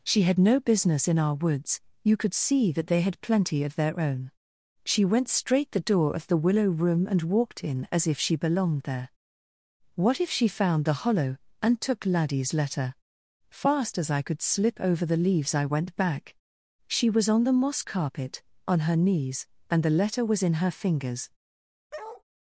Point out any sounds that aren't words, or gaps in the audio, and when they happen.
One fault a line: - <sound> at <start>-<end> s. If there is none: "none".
- bark at 21.9-22.2 s